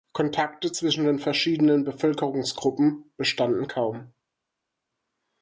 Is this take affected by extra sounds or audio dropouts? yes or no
no